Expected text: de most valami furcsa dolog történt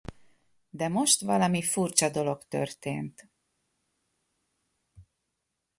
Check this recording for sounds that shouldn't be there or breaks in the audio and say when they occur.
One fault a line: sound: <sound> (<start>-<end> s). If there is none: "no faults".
no faults